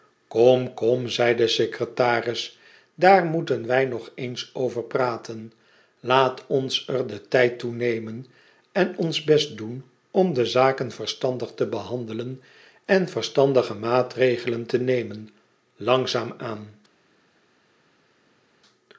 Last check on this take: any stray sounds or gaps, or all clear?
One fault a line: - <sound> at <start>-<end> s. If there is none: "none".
none